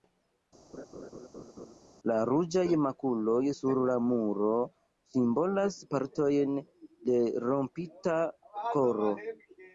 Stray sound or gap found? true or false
true